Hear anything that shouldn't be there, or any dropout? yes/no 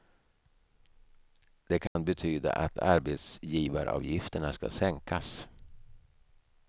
yes